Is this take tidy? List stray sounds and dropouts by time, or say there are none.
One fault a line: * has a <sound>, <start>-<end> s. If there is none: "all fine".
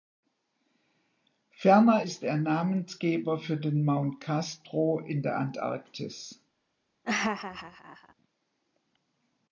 * has a laugh, 7.0-8.1 s